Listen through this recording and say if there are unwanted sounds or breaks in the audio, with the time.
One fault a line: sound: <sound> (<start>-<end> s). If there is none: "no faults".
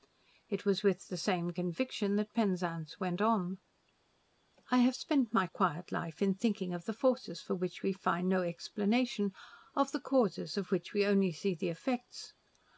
no faults